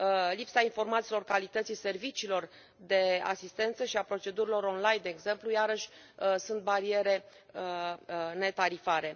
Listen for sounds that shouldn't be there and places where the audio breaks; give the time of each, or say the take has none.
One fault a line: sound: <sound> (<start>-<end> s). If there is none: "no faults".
no faults